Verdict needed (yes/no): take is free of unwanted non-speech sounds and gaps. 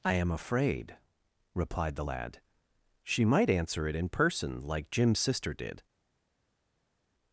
yes